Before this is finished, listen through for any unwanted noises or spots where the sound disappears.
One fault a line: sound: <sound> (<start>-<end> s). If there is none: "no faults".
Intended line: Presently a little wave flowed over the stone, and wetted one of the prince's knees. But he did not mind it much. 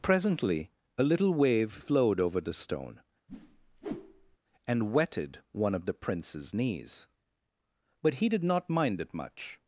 sound: whoosh (3.3-4.4 s)